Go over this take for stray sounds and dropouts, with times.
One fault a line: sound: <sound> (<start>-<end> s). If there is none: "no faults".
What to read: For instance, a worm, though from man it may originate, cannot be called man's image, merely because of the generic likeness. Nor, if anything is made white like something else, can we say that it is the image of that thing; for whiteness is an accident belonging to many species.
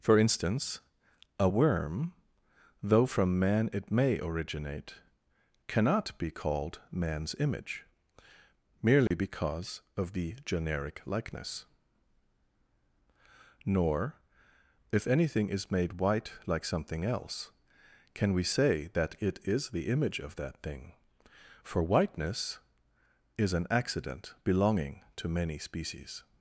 sound: dropout (9.1-9.1 s)